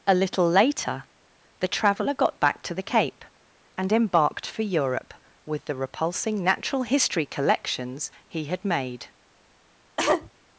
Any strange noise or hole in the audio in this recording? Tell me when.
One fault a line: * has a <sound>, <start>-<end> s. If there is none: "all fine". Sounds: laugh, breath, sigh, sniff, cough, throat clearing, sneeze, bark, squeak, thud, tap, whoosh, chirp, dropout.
* has a cough, 10.0-10.3 s